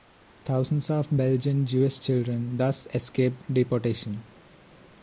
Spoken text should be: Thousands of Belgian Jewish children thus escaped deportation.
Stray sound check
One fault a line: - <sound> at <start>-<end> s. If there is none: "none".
none